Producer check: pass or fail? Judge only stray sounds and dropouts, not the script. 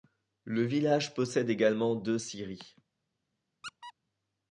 fail